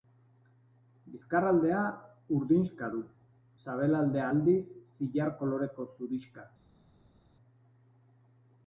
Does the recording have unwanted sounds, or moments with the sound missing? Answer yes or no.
no